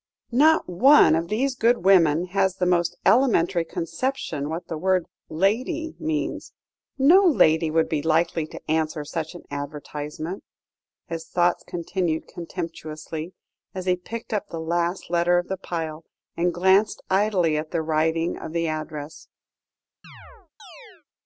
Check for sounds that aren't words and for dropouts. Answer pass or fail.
fail